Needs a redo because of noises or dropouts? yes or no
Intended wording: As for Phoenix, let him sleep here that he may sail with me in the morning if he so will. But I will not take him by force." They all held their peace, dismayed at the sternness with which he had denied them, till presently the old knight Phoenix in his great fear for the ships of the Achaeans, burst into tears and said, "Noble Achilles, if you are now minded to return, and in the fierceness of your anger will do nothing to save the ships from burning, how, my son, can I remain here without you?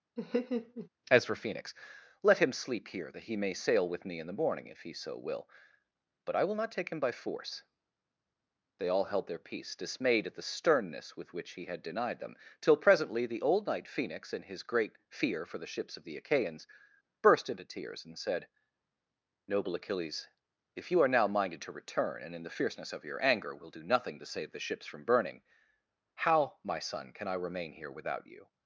yes